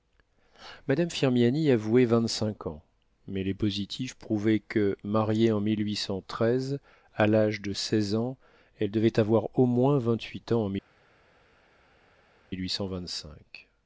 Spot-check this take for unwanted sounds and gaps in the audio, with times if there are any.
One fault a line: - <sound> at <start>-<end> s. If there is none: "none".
none